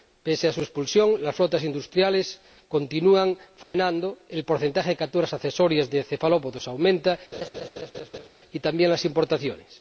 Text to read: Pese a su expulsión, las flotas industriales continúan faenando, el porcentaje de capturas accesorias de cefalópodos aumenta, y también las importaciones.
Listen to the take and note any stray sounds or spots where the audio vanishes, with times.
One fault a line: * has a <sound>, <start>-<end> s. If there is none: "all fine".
* has a dropout, 3.6-3.7 s
* has a laugh, 7.3-8.3 s